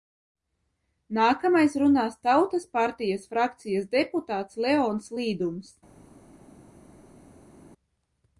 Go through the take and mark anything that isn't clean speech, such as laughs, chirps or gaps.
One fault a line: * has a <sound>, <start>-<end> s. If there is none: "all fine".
all fine